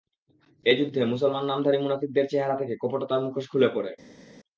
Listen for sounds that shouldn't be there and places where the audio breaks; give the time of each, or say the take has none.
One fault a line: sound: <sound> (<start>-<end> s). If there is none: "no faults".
no faults